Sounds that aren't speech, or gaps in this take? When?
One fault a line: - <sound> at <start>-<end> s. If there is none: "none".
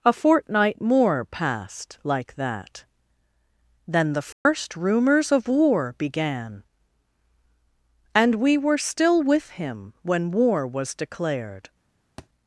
- dropout at 4.3-4.5 s
- thud at 12.2-12.3 s